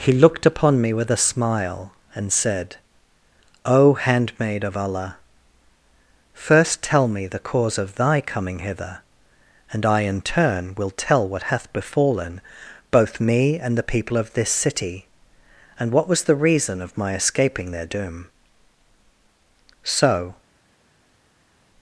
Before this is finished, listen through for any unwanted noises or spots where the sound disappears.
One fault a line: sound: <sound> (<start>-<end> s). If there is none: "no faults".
no faults